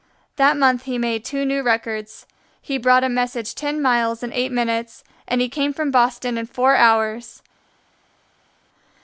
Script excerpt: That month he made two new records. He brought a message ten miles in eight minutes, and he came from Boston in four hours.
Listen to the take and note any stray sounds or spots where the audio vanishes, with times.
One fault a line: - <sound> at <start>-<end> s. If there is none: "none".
none